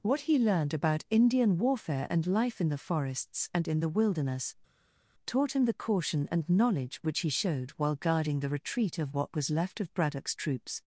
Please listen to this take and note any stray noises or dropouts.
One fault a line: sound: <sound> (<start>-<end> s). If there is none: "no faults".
no faults